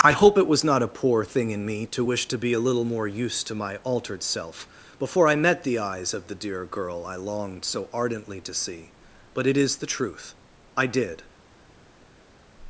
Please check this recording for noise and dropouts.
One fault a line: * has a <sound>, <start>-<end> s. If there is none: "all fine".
all fine